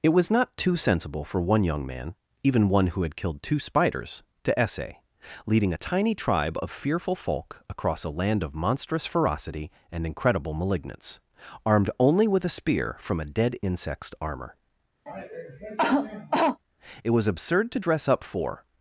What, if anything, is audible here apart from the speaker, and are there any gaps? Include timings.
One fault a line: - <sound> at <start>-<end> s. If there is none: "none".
- cough at 15.1-16.6 s